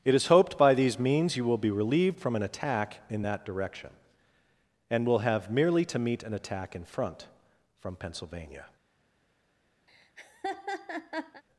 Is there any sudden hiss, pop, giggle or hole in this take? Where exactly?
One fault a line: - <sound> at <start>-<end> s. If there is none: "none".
- laugh at 9.9-11.4 s